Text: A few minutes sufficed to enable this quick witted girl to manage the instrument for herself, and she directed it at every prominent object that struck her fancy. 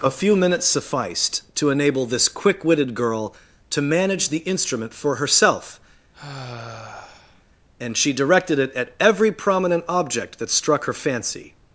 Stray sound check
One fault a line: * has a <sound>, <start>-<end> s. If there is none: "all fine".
* has a sigh, 6.1-7.4 s